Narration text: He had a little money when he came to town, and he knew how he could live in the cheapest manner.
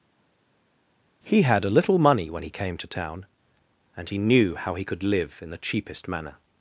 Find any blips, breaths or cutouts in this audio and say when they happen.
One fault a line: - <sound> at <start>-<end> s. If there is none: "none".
none